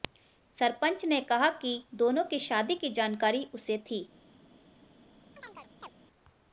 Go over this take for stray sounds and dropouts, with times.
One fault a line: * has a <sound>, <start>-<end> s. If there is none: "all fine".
* has a chirp, 5.4-5.9 s